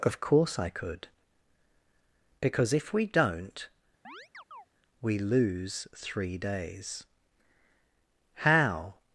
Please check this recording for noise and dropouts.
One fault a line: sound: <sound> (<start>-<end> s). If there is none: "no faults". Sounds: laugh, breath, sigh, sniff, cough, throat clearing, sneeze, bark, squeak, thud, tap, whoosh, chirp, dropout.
sound: chirp (4.0-4.7 s)